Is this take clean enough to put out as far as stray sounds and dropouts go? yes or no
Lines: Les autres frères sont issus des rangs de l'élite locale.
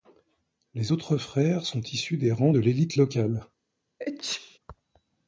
no